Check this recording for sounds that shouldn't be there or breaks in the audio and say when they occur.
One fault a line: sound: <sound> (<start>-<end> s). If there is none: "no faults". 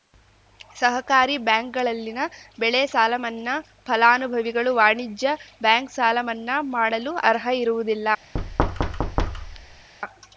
sound: thud (8.3-9.9 s)